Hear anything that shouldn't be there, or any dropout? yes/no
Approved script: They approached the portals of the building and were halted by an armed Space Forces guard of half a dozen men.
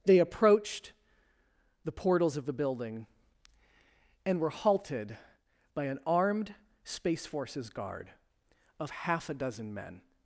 no